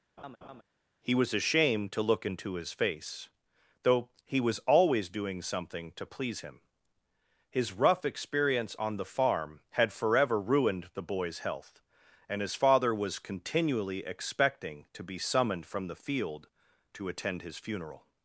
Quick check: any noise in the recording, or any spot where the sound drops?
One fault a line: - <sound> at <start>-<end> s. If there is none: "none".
- laugh at 0.2-0.6 s